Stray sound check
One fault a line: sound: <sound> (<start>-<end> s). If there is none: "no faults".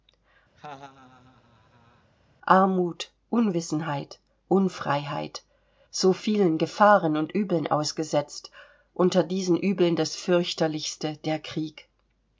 sound: laugh (0.6-2.1 s)